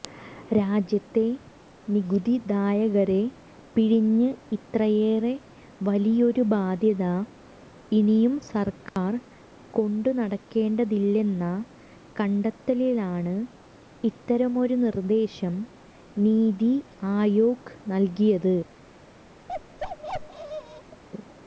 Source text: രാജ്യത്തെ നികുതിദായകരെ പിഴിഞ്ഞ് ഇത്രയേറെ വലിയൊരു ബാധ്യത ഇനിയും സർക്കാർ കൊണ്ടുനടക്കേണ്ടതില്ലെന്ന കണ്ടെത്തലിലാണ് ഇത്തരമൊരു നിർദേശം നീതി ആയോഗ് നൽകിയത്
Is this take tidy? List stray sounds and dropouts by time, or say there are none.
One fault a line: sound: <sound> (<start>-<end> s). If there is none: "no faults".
sound: dropout (8.9-9.0 s)
sound: bark (19.5-21.0 s)